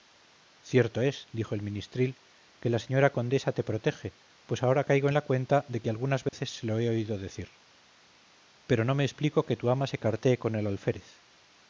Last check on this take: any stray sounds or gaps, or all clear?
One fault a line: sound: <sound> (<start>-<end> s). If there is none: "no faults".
sound: dropout (6.3-6.3 s)